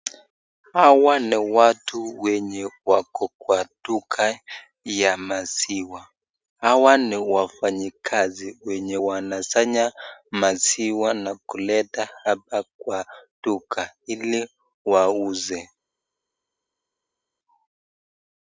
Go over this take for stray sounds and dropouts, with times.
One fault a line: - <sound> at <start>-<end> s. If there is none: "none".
none